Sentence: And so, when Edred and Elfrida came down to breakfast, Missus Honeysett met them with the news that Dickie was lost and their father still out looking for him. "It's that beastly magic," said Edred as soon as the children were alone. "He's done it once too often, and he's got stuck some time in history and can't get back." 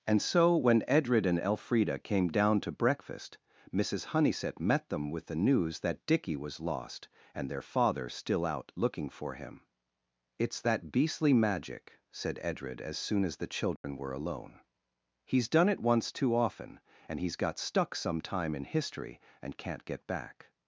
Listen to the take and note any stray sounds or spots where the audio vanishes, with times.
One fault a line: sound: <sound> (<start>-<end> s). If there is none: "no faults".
sound: dropout (13.8-13.8 s)